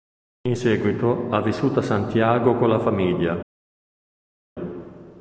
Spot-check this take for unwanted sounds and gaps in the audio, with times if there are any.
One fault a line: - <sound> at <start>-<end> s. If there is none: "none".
none